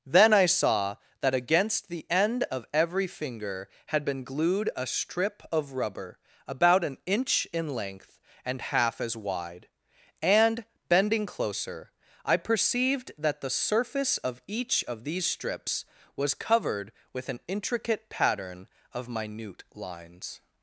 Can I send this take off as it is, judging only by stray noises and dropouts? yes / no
yes